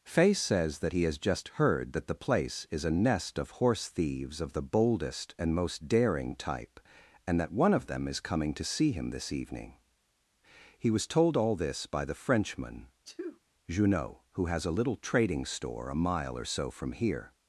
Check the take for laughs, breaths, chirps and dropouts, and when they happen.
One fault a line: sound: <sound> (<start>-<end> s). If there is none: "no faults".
sound: sneeze (13.0-13.4 s)